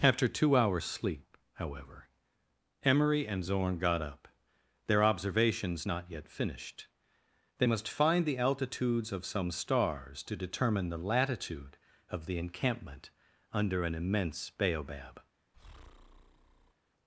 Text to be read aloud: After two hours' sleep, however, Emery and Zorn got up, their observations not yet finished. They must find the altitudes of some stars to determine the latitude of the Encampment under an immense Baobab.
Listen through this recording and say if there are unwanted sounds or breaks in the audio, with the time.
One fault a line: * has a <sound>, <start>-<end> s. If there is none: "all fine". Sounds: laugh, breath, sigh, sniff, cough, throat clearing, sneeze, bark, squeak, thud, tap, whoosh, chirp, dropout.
* has a breath, 15.5-16.7 s